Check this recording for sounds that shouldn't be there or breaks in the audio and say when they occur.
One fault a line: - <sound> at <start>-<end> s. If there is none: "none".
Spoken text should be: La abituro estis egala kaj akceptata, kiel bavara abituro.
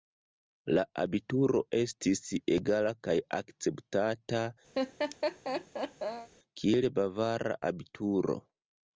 - laugh at 4.7-6.3 s